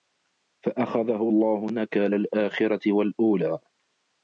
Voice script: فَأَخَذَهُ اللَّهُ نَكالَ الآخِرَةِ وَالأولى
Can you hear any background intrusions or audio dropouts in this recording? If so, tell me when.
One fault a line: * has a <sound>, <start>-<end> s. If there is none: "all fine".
all fine